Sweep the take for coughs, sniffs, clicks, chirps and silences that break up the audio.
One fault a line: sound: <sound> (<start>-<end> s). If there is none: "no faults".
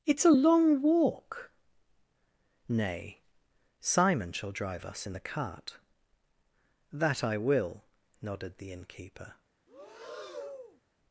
sound: breath (9.7-10.8 s)